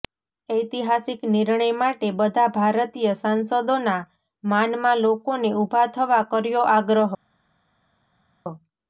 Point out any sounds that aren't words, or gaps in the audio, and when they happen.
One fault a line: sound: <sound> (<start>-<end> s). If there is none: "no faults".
no faults